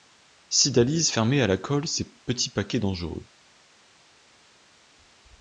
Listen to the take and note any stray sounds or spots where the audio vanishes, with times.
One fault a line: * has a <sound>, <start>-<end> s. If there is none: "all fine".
all fine